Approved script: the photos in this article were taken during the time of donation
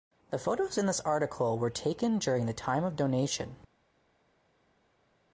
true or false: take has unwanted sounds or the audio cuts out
false